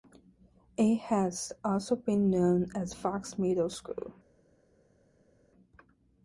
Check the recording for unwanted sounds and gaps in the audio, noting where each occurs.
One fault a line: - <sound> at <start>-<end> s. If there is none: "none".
none